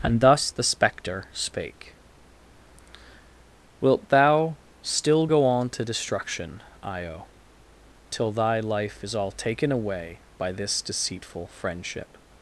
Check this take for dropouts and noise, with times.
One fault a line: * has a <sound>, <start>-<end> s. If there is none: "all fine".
all fine